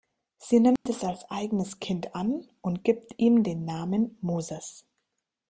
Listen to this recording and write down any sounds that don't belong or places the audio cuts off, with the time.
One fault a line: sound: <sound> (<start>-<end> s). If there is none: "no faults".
sound: dropout (0.8-0.9 s)